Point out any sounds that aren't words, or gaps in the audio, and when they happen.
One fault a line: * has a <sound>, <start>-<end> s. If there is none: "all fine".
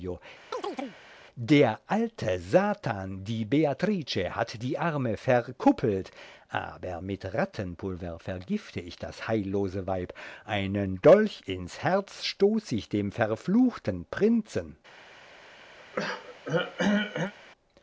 * has a chirp, 0.5-1.0 s
* has a throat clearing, 15.8-17.3 s